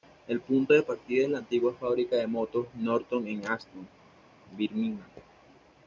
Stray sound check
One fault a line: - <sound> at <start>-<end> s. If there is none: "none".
none